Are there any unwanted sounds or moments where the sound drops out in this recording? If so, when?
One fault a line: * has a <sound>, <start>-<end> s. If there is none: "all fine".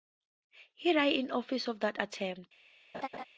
* has a laugh, 2.9-3.2 s